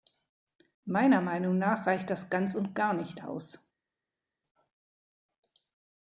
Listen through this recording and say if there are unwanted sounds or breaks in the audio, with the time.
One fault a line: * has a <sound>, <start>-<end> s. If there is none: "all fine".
all fine